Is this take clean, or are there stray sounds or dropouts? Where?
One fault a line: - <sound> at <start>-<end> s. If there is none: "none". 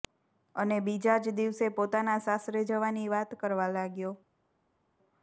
none